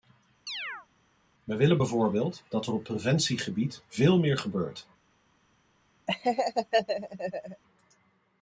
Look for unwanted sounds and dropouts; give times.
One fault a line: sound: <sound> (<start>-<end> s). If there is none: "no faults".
sound: chirp (0.5-0.9 s)
sound: laugh (6.1-7.6 s)